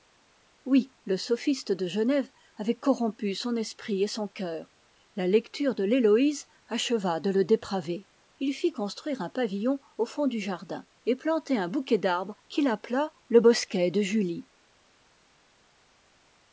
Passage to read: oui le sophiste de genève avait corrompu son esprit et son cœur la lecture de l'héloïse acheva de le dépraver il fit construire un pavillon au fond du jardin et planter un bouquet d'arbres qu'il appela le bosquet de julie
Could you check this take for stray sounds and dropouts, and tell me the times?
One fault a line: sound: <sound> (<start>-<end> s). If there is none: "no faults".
no faults